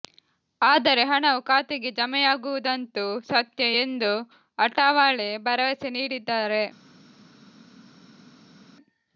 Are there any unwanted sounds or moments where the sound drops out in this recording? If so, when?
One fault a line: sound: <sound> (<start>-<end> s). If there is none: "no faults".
no faults